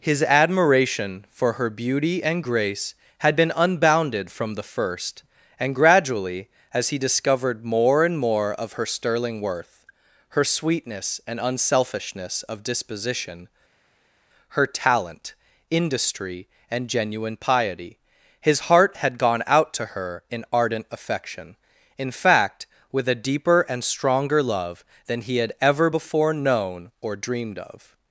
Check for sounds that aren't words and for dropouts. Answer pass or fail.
pass